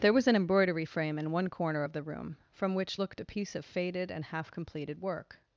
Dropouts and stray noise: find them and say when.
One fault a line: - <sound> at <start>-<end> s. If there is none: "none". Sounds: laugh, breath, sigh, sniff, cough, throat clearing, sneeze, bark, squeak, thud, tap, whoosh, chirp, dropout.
none